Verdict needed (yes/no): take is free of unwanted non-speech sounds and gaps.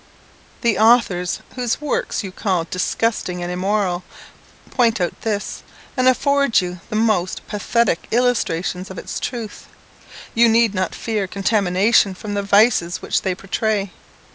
yes